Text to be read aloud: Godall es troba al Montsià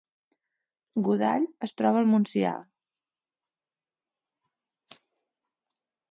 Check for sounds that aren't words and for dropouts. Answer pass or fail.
pass